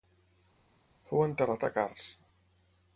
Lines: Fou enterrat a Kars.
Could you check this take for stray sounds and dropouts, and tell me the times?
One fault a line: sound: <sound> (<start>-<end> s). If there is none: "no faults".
no faults